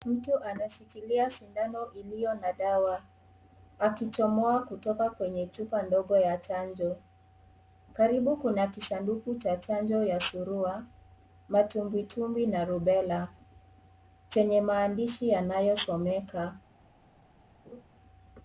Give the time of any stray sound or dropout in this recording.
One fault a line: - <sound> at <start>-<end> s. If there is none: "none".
- laugh at 17.6-17.8 s